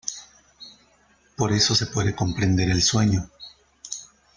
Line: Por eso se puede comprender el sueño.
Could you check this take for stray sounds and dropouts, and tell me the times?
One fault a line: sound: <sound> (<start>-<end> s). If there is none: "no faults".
no faults